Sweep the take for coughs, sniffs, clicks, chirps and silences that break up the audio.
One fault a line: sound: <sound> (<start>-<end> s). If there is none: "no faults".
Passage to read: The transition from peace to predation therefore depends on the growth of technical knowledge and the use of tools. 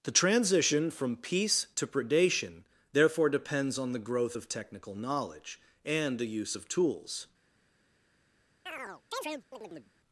sound: chirp (8.7-9.9 s)